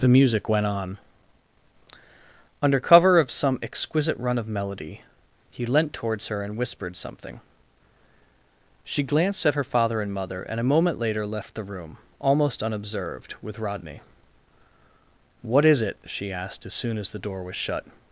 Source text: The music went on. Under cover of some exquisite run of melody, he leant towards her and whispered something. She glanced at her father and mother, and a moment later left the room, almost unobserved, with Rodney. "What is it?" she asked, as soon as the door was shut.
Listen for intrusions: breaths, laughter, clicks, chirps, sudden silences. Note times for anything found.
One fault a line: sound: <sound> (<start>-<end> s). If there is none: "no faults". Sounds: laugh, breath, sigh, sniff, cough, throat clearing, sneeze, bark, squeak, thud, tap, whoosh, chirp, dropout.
no faults